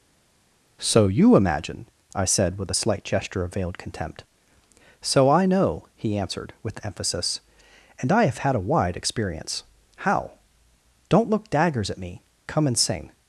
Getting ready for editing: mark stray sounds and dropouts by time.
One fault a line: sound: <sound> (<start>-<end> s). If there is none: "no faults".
no faults